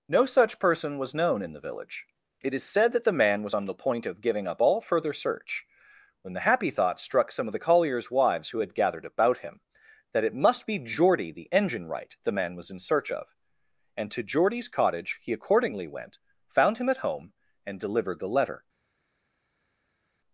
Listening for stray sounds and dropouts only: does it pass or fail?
pass